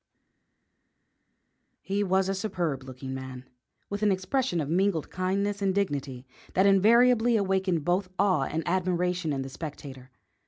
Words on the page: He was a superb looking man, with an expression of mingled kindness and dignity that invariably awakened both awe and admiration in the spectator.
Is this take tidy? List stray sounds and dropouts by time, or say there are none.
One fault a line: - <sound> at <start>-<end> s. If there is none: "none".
none